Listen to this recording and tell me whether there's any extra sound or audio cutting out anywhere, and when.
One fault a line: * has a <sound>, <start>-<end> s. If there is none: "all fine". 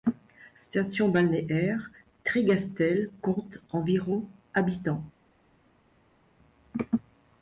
all fine